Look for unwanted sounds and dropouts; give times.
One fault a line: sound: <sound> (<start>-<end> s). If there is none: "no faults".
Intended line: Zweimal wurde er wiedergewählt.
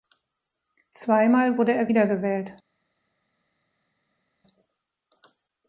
no faults